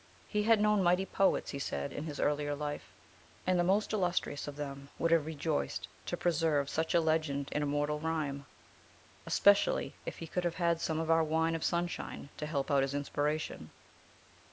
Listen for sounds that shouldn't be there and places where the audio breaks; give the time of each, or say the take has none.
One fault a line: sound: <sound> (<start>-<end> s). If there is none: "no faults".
no faults